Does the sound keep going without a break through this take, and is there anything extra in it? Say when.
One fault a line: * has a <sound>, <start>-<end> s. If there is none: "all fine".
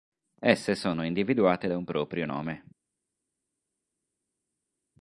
all fine